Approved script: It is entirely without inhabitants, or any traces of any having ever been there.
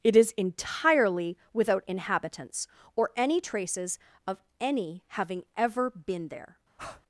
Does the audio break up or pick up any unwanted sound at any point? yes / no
yes